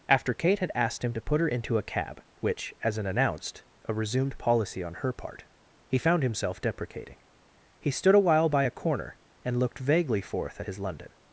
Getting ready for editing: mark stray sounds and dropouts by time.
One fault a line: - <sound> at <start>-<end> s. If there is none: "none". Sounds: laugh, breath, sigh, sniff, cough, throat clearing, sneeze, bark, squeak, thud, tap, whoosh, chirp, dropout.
none